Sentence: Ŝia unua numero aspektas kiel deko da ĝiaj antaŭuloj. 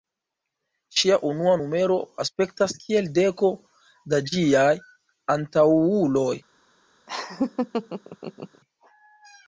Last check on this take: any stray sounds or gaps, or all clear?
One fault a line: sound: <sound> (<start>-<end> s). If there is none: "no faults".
sound: laugh (7.1-8.6 s)